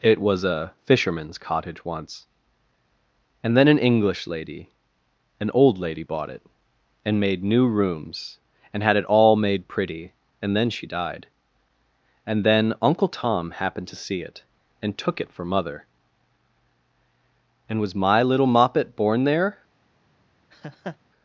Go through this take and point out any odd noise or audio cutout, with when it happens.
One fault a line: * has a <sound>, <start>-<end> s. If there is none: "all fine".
* has a laugh, 20.5-21.0 s